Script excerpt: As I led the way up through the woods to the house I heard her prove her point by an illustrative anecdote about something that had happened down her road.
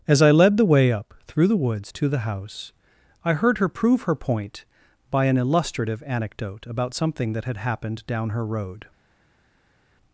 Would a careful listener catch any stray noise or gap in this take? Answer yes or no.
no